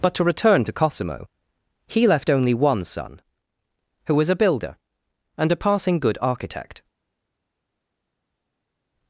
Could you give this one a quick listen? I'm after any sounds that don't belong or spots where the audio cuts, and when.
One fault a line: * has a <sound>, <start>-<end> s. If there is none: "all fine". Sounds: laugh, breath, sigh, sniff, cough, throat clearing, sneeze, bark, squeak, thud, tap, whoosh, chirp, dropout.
all fine